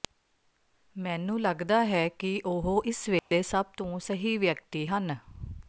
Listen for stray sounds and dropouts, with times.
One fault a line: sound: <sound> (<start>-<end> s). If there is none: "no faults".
sound: dropout (3.2-3.3 s)